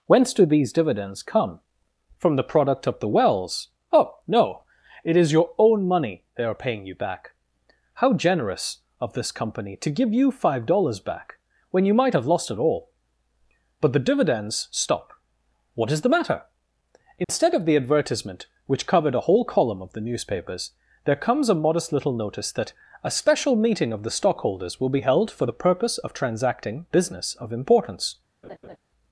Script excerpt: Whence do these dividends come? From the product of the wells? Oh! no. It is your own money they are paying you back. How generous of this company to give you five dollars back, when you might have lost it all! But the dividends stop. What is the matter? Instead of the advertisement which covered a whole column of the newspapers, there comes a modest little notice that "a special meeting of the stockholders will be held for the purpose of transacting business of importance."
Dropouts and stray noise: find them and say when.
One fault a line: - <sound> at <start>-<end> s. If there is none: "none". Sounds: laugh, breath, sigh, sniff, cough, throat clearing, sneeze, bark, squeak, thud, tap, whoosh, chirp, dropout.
- dropout at 17.2-17.3 s
- laugh at 28.4-28.8 s